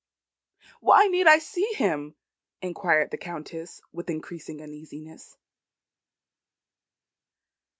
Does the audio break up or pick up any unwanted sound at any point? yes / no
no